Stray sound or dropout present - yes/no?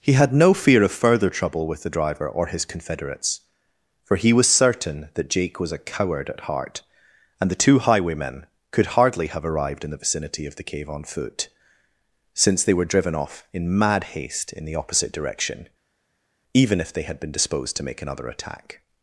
no